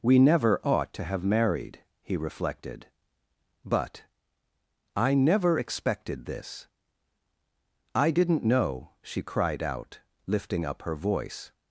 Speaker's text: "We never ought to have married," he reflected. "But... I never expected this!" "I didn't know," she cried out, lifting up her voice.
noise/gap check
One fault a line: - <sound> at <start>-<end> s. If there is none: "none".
none